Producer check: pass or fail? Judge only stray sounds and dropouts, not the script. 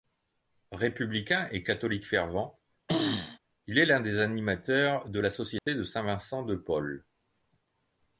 fail